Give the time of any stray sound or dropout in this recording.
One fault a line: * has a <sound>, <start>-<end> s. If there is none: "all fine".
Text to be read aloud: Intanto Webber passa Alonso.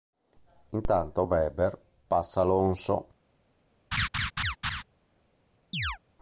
* has a laugh, 3.9-4.8 s
* has a chirp, 5.7-6.0 s